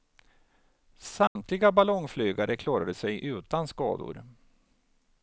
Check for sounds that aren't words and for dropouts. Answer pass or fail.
fail